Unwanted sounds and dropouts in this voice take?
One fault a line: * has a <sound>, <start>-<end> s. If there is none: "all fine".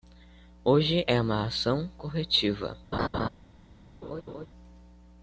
* has a laugh, 2.9-3.3 s
* has a laugh, 4.0-4.5 s